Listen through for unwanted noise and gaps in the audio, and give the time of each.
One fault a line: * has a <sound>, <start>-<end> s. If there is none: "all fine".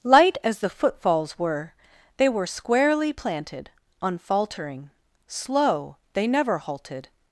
all fine